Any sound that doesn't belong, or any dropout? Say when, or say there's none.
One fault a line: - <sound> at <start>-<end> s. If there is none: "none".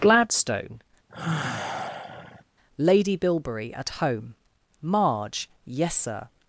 - sigh at 1.1-2.4 s